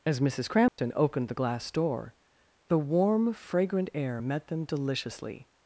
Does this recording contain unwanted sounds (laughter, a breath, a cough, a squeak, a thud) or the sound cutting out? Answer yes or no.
yes